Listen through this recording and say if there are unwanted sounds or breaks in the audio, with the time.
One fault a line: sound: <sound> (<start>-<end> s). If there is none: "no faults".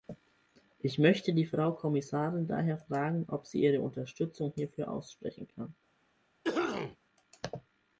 sound: cough (6.4-7.0 s)